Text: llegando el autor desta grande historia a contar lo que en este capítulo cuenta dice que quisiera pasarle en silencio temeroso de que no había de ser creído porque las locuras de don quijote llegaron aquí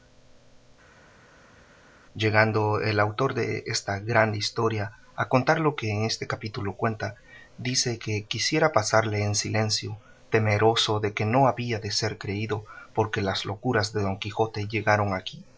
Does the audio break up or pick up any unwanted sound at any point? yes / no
no